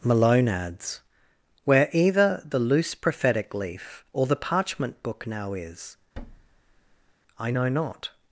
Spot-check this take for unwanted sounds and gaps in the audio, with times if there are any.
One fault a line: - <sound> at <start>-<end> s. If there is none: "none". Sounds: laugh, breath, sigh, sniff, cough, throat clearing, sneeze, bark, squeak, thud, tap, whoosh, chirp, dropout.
- thud at 6.1-7.1 s